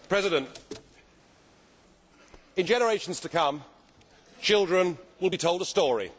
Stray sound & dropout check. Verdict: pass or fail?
pass